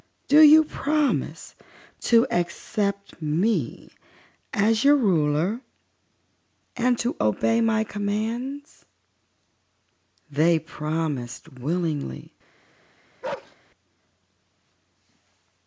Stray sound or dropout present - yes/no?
yes